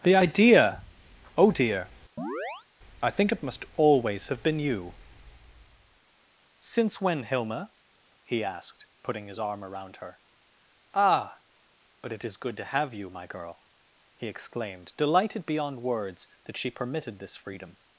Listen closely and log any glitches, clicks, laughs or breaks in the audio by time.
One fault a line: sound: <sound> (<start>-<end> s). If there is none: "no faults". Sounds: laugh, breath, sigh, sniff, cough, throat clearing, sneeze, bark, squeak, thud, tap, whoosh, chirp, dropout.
sound: chirp (2.2-2.7 s)